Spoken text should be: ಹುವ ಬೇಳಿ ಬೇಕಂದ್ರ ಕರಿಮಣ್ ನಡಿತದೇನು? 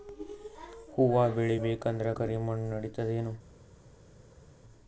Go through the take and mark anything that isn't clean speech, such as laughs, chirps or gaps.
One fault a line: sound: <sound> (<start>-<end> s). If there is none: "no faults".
no faults